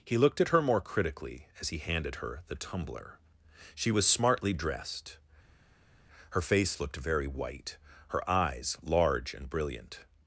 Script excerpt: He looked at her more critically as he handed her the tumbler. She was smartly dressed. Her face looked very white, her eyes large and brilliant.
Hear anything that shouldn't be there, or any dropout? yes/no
no